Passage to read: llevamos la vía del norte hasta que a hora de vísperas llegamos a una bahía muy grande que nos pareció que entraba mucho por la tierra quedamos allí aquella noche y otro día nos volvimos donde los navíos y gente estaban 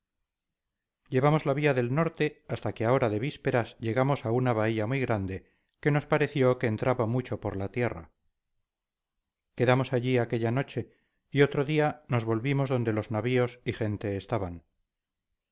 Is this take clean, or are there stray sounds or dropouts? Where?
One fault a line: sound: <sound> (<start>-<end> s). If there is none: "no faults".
no faults